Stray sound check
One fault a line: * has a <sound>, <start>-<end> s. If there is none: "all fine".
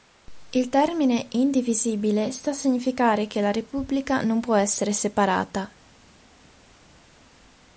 all fine